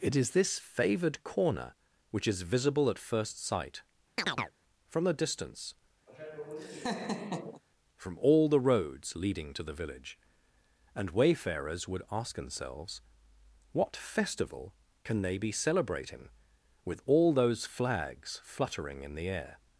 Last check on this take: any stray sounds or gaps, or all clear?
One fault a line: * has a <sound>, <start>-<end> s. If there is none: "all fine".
* has a chirp, 4.2-4.5 s
* has a laugh, 6.1-7.6 s